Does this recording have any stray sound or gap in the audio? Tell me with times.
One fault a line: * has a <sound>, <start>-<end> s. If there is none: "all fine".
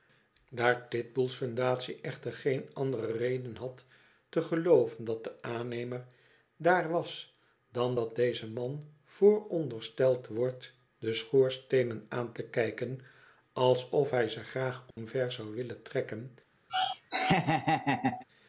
* has a dropout, 14.9-15.0 s
* has a laugh, 16.7-18.2 s